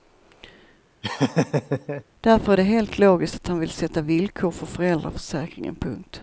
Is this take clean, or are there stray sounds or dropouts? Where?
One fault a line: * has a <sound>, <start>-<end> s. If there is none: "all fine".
* has a laugh, 1.0-2.0 s